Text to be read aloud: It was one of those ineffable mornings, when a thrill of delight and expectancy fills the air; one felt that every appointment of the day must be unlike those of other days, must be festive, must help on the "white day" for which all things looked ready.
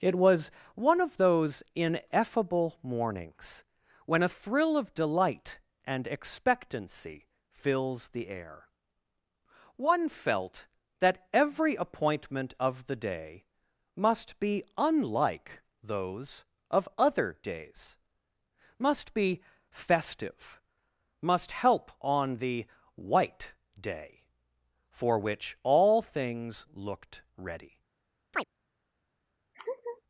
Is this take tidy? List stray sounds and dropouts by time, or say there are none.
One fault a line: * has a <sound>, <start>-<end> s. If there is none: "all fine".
* has a chirp, 28.3-28.4 s
* has a laugh, 29.5-30.0 s